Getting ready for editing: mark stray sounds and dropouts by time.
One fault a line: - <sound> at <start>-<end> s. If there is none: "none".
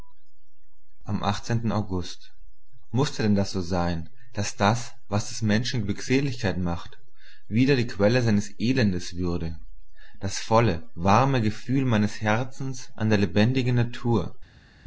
none